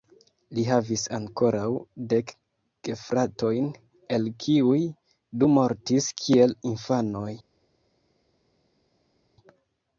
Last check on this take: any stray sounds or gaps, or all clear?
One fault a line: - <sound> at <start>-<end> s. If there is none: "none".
none